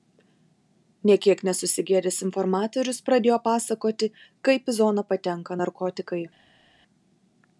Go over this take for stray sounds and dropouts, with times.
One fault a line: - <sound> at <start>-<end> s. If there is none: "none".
none